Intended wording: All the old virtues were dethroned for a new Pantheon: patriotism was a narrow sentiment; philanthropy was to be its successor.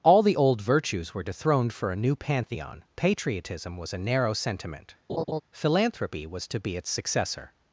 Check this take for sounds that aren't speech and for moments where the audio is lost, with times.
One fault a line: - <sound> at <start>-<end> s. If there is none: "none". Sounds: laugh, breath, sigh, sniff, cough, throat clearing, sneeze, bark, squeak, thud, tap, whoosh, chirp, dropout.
- laugh at 5.1-5.4 s